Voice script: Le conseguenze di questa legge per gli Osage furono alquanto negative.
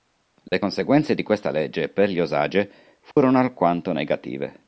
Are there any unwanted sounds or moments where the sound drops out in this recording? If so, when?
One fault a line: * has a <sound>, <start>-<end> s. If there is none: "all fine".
* has a dropout, 0.5-0.5 s
* has a dropout, 3.1-3.2 s